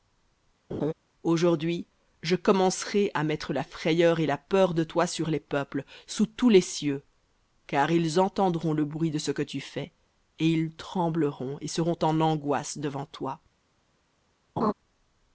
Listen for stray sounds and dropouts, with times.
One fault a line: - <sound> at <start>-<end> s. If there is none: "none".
- laugh at 0.7-0.9 s
- laugh at 14.6-14.7 s